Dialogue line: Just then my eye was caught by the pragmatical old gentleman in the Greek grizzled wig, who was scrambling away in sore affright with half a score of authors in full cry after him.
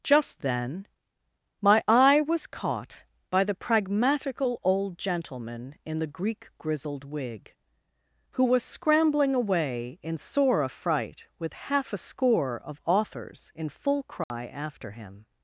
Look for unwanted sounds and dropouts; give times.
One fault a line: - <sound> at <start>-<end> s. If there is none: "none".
- dropout at 14.2-14.3 s